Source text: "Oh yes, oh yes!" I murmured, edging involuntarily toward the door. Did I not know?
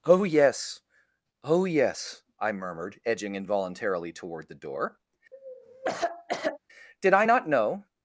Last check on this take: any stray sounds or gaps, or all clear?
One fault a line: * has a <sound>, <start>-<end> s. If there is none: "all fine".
* has a cough, 5.3-6.6 s